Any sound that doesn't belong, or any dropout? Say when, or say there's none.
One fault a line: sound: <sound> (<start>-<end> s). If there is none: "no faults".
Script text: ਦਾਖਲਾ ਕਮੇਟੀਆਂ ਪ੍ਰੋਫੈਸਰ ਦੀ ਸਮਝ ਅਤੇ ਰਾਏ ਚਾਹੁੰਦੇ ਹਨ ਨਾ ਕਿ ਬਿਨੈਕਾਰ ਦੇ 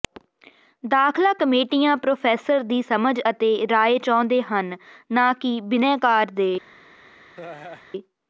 sound: laugh (7.3-7.8 s)